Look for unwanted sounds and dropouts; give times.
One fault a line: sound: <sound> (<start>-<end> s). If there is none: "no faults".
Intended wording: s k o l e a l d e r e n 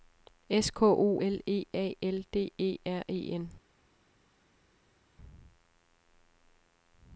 no faults